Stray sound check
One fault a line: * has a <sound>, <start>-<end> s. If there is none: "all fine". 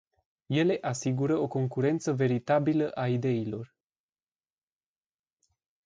all fine